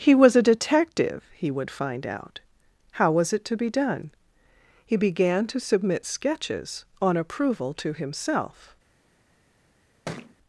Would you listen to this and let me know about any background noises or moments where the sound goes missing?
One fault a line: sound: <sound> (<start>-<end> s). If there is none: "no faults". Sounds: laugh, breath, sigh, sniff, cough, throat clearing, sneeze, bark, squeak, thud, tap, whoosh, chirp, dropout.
sound: thud (10.1-10.4 s)